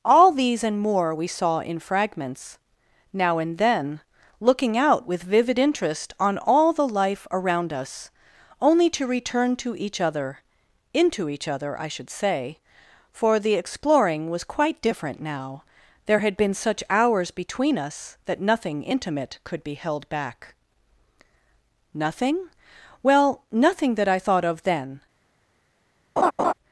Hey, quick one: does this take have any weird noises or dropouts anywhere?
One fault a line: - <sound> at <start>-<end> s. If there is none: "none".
- laugh at 26.2-26.5 s